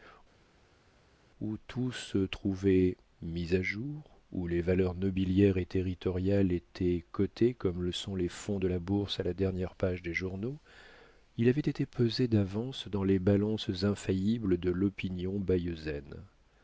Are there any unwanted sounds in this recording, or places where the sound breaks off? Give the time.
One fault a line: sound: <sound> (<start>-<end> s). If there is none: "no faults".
no faults